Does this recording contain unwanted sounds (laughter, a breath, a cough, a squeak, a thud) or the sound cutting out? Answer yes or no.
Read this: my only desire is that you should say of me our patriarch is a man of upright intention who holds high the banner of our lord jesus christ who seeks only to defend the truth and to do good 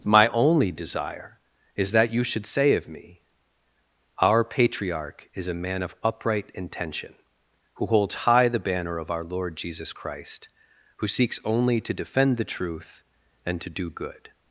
no